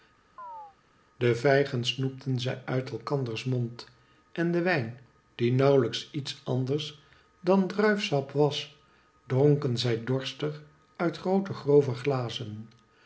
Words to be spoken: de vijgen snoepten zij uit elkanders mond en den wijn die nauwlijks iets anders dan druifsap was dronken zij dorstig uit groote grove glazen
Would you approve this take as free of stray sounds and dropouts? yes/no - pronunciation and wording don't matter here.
no